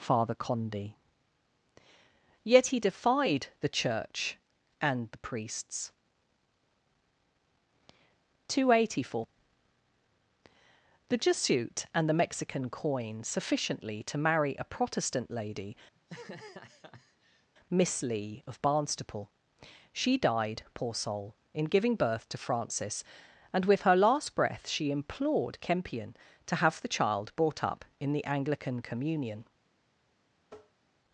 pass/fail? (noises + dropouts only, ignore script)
fail